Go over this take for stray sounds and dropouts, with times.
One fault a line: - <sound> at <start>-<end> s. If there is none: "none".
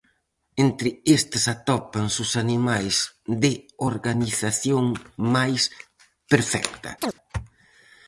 - chirp at 7.0-7.1 s